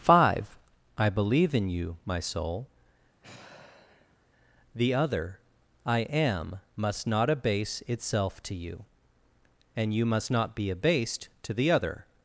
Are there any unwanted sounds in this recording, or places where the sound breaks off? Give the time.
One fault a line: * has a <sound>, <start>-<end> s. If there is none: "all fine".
* has a sigh, 3.2-4.3 s